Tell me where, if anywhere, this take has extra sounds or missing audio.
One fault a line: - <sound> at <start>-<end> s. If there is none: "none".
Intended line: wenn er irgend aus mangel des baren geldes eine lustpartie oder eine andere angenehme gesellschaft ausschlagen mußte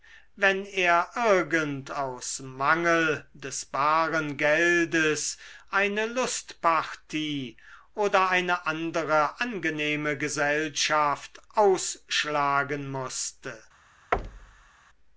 - thud at 14.1-14.7 s